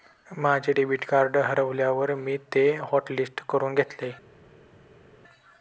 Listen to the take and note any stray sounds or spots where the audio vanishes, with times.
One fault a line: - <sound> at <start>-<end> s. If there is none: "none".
none